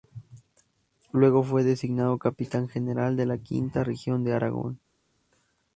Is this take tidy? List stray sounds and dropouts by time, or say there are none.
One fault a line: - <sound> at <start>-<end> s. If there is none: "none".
none